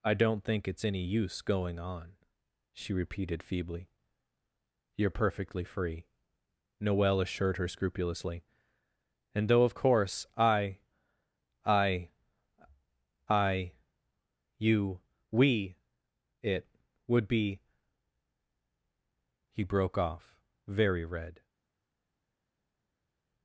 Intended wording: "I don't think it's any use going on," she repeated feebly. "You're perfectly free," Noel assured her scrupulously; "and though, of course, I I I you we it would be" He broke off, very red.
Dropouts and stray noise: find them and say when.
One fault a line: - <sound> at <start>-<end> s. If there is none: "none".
none